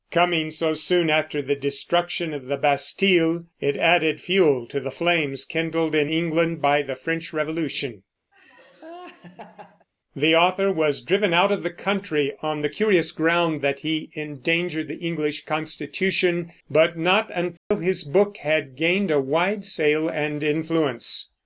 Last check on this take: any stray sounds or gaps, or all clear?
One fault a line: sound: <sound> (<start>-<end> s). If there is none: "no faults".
sound: laugh (8.3-9.9 s)
sound: dropout (17.6-17.7 s)